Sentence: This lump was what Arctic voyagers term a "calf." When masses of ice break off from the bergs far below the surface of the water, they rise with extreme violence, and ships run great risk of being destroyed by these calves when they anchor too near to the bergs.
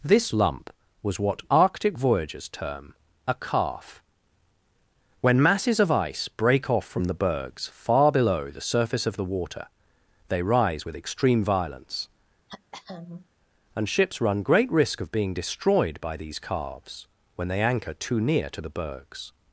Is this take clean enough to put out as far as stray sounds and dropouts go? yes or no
no